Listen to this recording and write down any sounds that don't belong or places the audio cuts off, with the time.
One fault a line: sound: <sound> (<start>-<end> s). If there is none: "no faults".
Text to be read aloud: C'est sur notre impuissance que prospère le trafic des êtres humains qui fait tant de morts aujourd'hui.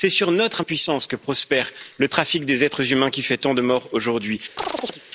sound: chirp (4.6-5.0 s)